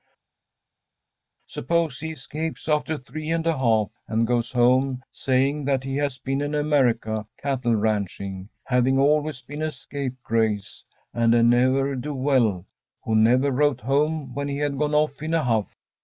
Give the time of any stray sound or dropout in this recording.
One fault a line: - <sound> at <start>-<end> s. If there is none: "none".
none